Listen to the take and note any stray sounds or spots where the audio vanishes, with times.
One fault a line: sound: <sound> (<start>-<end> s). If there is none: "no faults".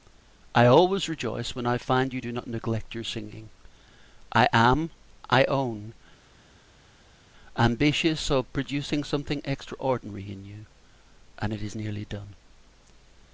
no faults